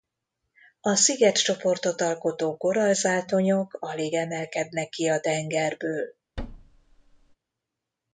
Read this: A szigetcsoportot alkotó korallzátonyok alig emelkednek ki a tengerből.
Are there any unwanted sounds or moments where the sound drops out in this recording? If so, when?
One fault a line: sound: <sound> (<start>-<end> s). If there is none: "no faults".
sound: thud (6.4-7.4 s)